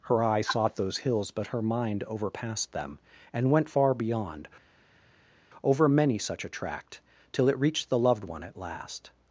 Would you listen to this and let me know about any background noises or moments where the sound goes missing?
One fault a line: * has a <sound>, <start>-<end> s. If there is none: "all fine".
all fine